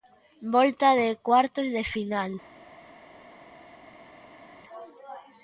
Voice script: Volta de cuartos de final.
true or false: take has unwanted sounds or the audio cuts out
false